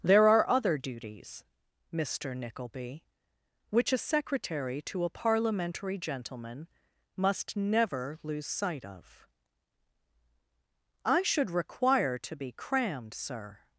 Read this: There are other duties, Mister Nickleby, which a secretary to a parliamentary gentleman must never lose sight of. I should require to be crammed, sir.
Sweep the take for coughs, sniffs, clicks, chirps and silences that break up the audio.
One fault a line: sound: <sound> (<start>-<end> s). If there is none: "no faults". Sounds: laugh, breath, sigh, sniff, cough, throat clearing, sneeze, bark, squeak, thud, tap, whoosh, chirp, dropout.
no faults